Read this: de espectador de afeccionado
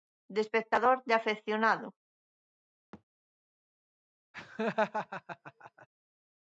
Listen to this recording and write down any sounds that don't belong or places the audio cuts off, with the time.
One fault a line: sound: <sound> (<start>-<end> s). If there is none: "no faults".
sound: thud (2.9-3.0 s)
sound: laugh (4.3-5.9 s)